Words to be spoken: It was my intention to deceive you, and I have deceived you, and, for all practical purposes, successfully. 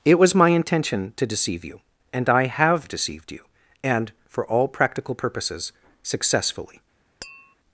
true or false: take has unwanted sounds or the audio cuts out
true